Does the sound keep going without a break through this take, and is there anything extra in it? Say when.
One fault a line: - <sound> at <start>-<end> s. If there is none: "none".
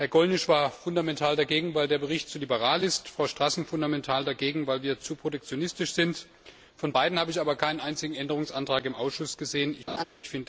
- laugh at 9.9-10.0 s